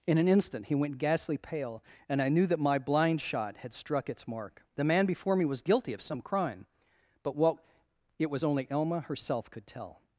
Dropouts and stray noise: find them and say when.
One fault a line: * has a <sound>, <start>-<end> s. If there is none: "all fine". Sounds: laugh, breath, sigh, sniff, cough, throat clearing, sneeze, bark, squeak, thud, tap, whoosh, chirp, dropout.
all fine